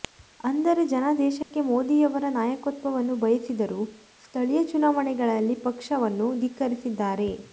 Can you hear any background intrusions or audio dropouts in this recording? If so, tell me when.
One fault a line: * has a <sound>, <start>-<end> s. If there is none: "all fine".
* has a dropout, 1.4-1.5 s